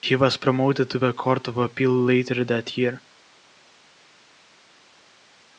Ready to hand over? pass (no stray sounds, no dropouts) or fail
pass